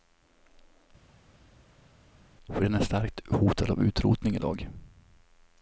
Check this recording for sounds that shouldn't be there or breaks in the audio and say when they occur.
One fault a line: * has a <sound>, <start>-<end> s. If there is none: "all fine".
all fine